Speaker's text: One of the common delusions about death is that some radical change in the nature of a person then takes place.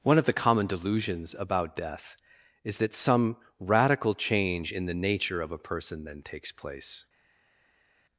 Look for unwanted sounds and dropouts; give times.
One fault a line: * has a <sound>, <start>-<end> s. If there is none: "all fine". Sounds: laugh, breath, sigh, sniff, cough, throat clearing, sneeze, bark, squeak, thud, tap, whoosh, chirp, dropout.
all fine